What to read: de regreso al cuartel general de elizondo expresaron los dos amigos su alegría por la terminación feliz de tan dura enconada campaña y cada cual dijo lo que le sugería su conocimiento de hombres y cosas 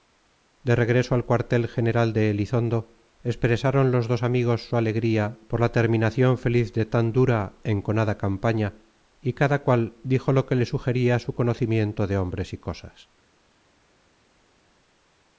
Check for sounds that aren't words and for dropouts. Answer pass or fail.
pass